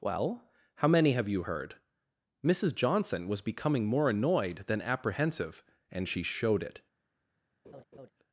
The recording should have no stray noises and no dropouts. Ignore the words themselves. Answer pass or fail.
fail